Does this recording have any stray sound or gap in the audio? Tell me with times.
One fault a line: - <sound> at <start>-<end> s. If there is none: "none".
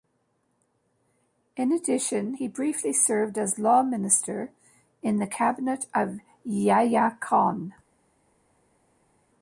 none